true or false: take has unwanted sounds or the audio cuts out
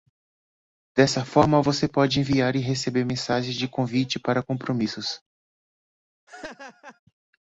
true